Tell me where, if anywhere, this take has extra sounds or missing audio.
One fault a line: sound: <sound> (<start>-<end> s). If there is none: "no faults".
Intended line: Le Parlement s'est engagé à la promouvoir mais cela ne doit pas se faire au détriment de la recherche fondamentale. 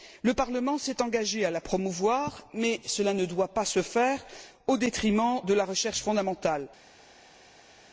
no faults